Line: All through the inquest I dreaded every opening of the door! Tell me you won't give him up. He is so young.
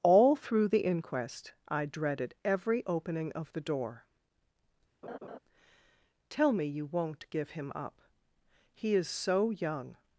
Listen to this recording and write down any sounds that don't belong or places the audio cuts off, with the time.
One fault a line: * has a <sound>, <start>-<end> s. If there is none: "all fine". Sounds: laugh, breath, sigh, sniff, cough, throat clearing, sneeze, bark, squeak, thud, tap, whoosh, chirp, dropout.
* has a laugh, 5.0-5.4 s